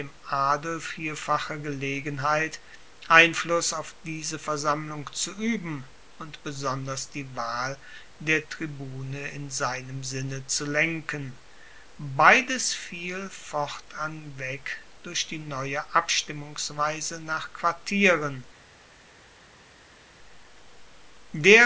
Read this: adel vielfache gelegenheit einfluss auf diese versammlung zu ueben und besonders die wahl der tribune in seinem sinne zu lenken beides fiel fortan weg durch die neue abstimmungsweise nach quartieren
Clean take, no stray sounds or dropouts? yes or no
yes